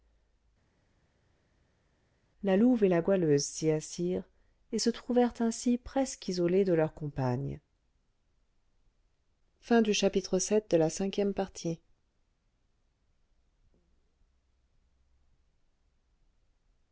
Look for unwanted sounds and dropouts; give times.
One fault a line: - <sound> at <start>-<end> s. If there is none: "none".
none